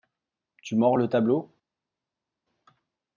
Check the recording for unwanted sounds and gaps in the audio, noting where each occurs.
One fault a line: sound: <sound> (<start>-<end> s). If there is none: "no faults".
no faults